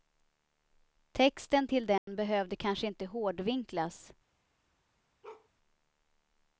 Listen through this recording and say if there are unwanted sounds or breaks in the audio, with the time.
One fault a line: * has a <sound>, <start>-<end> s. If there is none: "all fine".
* has a dropout, 2.0-2.1 s
* has a bark, 5.2-5.5 s